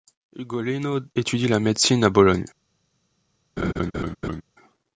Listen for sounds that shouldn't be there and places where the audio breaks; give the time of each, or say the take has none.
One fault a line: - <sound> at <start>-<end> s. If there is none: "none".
- laugh at 3.6-4.4 s